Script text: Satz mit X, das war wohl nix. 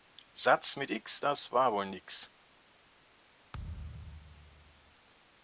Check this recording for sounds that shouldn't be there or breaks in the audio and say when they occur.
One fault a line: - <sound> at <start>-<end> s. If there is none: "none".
- thud at 3.5-5.0 s